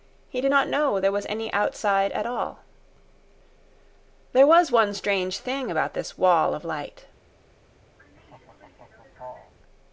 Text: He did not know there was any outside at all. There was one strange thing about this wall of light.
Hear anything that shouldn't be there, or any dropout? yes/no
yes